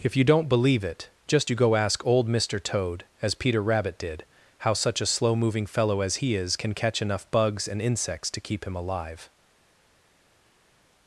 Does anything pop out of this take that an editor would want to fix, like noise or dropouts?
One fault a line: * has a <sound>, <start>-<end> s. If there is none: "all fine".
all fine